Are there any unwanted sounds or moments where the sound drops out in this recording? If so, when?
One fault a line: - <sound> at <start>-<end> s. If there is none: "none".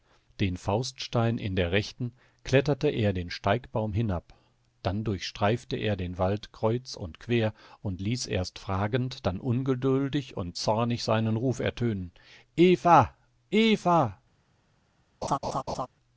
- laugh at 15.2-15.9 s